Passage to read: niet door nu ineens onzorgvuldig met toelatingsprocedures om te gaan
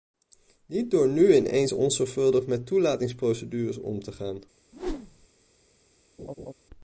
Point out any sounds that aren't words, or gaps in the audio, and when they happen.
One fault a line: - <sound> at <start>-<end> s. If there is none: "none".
- whoosh at 4.7-5.3 s
- laugh at 6.2-6.5 s